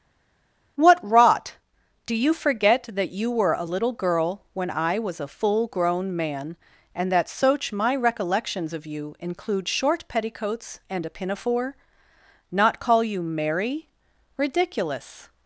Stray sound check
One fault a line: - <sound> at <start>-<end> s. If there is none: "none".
none